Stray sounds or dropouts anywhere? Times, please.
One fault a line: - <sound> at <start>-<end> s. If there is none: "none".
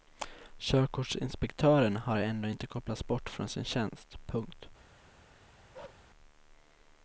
- bark at 5.7-6.1 s